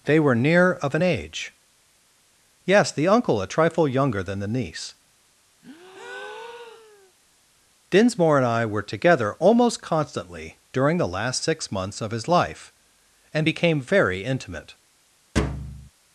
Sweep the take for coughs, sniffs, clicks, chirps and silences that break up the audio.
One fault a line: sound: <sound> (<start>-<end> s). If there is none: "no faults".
sound: breath (5.6-7.1 s)
sound: thud (15.4-15.9 s)